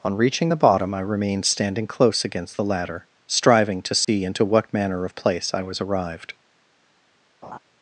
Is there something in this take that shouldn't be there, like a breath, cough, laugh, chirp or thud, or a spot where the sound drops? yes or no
yes